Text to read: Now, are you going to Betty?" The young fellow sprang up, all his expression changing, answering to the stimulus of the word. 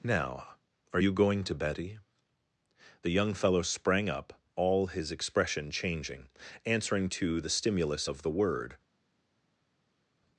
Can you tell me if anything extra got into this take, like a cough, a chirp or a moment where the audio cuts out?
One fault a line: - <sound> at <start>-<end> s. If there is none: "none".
none